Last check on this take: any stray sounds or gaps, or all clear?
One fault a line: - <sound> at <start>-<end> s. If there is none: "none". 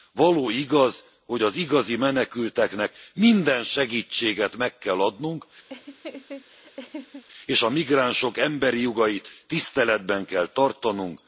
- laugh at 5.7-7.2 s